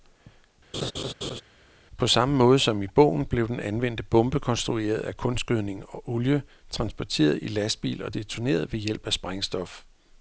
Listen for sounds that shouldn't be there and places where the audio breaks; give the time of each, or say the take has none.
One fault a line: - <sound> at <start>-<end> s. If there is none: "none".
- laugh at 0.7-1.4 s